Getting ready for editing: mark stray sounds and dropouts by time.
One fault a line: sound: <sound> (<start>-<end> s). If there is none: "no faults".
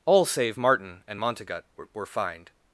no faults